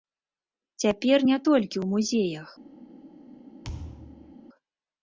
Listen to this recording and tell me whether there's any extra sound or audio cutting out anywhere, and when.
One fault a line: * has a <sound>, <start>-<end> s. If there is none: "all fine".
* has a thud, 3.6-4.3 s